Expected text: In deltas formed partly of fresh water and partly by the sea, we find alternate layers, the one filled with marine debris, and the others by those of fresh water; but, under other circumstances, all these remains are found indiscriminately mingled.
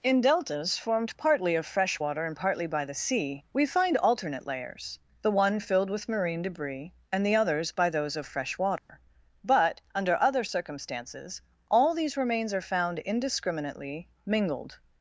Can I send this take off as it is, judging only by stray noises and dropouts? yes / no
no